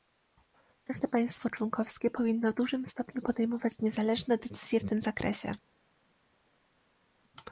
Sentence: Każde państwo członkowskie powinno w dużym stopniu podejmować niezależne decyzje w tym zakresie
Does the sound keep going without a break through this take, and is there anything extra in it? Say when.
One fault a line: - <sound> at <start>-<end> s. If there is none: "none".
none